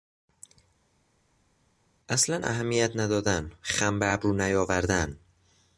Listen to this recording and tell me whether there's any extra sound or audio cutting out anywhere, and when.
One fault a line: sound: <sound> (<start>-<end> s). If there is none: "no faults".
no faults